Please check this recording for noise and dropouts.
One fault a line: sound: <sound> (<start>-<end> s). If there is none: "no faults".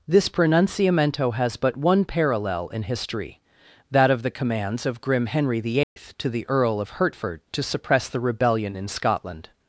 sound: dropout (5.8-6.0 s)